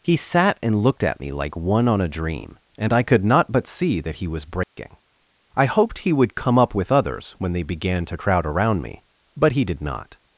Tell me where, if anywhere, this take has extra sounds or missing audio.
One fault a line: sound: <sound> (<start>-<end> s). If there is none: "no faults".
sound: dropout (4.6-4.8 s)